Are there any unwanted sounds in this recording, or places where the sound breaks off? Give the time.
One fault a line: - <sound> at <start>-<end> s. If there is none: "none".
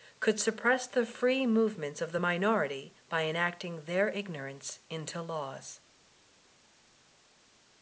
none